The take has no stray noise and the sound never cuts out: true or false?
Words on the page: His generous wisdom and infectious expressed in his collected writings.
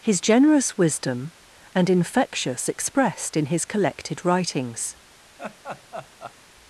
false